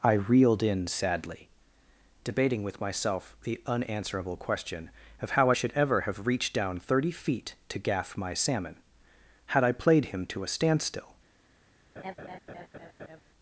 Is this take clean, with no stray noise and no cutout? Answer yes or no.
no